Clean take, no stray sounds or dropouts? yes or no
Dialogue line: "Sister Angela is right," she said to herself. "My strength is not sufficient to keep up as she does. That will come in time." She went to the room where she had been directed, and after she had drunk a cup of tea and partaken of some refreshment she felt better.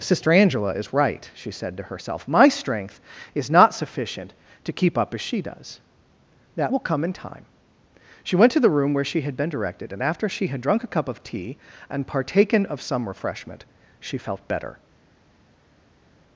yes